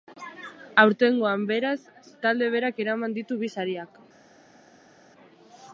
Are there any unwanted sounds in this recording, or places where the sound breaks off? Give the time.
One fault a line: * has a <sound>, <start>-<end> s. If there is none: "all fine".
all fine